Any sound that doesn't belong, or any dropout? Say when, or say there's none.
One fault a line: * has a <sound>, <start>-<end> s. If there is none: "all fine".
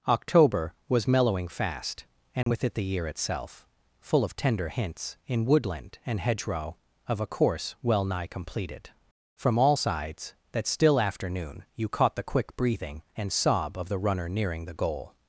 * has a dropout, 2.4-2.5 s